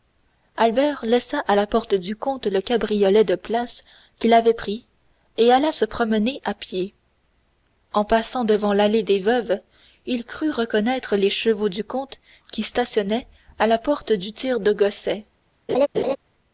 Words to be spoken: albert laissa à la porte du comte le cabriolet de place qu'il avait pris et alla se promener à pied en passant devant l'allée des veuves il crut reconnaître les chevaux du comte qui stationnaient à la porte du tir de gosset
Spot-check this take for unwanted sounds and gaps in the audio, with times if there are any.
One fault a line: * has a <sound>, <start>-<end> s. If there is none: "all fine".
* has a laugh, 15.7-16.2 s